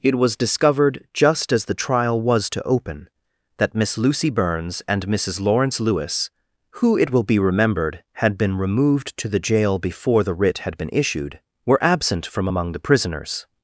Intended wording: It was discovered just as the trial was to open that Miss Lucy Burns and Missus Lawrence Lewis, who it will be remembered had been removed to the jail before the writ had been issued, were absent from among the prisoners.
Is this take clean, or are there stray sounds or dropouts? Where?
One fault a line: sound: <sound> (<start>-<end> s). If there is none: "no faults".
no faults